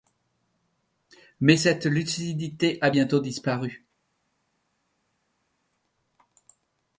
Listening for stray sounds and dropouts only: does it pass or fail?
pass